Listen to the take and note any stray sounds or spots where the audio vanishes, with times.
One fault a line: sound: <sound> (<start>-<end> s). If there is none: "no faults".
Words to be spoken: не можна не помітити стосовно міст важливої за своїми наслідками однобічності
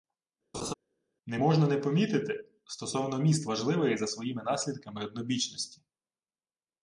sound: laugh (0.5-0.7 s)